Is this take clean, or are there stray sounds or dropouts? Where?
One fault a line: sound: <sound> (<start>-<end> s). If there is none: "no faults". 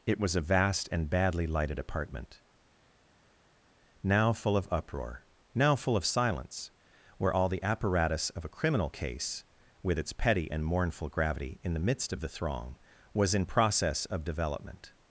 no faults